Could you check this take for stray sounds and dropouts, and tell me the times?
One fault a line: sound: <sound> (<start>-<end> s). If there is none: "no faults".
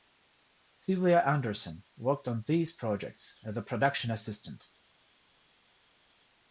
no faults